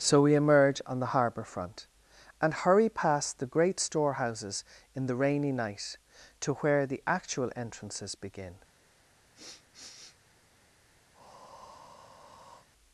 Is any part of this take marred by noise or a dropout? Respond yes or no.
yes